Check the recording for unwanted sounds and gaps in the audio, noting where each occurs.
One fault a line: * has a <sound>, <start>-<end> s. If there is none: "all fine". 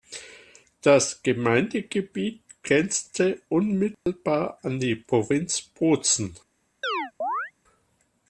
* has a dropout, 3.9-4.1 s
* has a chirp, 6.8-7.5 s